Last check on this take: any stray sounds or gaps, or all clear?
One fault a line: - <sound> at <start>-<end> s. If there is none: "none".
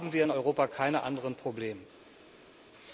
none